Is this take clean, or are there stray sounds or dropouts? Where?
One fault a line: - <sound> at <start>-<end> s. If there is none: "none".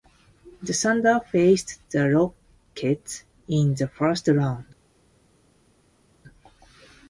none